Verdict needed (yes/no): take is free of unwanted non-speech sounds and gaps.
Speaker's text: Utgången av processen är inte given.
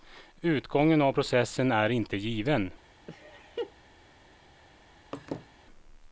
no